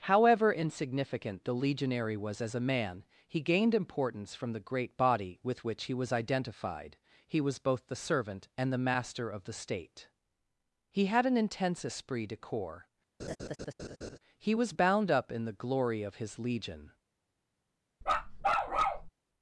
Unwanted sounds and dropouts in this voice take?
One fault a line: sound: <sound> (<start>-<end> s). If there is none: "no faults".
sound: laugh (13.2-14.2 s)
sound: bark (18.0-19.1 s)